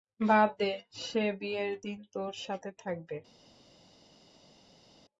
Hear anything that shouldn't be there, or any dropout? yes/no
no